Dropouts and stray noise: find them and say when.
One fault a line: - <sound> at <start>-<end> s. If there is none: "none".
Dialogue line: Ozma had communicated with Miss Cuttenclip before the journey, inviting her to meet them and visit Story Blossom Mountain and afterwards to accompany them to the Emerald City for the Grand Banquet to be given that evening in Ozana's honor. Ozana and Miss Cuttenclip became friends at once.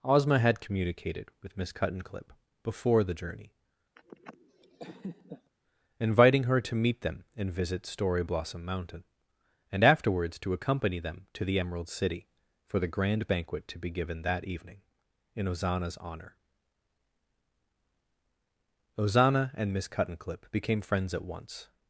- laugh at 4.0-5.5 s